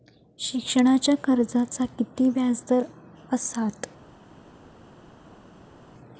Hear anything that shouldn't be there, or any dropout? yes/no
no